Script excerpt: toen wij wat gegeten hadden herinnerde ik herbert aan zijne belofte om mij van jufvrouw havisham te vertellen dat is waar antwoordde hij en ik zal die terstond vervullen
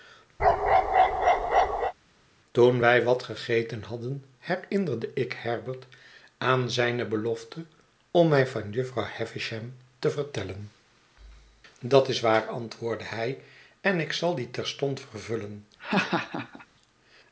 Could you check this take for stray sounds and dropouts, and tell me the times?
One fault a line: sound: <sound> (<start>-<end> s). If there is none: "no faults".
sound: bark (0.4-1.9 s)
sound: laugh (15.8-16.7 s)